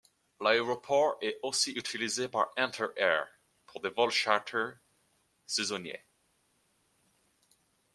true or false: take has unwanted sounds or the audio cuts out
false